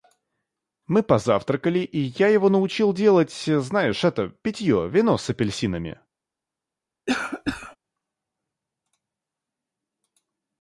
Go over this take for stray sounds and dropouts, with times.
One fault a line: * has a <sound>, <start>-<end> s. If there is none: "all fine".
* has a cough, 7.1-7.8 s